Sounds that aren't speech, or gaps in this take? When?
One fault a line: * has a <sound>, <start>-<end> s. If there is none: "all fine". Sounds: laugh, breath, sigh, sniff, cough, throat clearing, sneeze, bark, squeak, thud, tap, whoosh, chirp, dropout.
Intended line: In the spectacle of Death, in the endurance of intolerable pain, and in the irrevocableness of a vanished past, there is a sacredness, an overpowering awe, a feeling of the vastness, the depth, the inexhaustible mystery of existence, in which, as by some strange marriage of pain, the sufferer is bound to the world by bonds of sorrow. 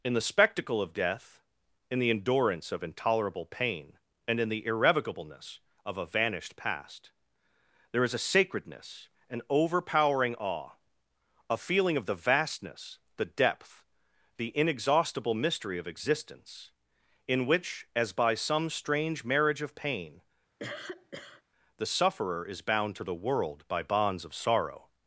* has a cough, 20.6-21.4 s